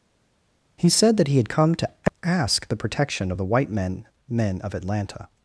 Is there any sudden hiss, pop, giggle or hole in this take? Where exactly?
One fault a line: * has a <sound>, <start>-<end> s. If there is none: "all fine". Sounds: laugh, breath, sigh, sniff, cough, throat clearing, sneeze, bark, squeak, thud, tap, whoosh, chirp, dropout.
all fine